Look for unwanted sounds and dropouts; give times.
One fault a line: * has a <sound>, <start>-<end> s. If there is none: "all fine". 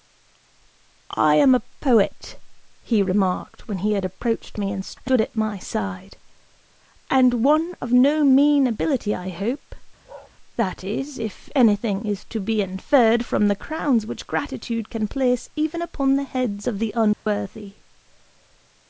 * has a bark, 10.0-10.3 s
* has a dropout, 17.1-17.3 s